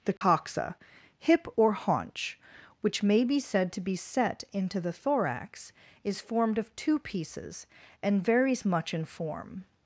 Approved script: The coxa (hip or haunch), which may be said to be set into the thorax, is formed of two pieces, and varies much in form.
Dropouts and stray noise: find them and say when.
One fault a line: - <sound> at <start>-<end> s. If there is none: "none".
- dropout at 0.2-0.2 s